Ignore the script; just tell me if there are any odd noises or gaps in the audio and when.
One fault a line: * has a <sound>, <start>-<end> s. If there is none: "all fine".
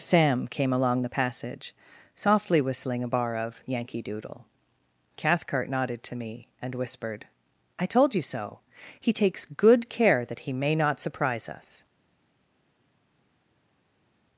all fine